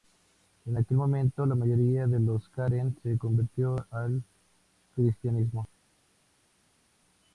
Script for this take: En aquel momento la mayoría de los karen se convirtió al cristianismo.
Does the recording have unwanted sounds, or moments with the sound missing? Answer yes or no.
no